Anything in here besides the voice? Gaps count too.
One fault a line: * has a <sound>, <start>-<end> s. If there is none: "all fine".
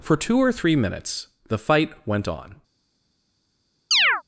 * has a chirp, 3.9-4.2 s